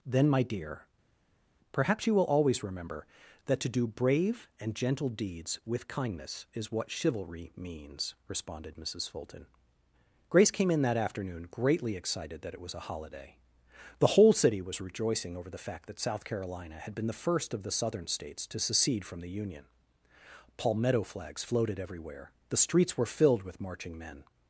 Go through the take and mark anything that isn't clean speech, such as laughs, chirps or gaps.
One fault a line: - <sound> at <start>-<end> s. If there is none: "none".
none